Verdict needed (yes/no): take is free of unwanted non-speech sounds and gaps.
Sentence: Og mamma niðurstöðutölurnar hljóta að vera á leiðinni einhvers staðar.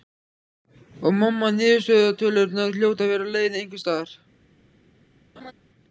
no